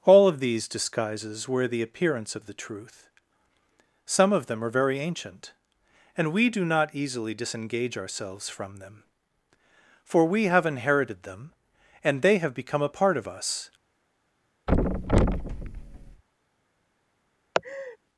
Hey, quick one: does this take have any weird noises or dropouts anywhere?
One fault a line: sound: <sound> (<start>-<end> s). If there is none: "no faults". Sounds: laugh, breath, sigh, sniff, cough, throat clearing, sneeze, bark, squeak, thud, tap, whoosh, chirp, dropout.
sound: thud (14.7-16.2 s)
sound: laugh (17.5-18.0 s)